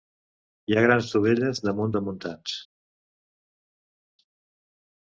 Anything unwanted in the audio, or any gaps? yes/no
no